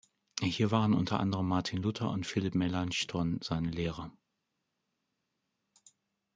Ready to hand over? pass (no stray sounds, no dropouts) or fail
pass